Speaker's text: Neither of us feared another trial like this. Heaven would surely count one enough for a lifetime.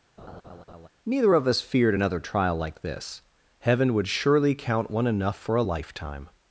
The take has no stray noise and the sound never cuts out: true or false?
false